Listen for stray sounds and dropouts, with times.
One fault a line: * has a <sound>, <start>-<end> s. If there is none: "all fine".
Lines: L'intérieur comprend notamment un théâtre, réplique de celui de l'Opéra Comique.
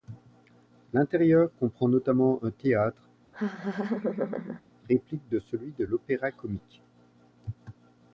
* has a laugh, 3.3-4.6 s